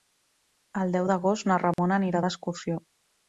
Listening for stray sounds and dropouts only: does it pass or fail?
fail